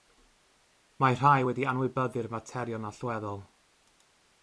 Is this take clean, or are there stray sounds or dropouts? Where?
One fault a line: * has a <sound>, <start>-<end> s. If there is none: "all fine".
all fine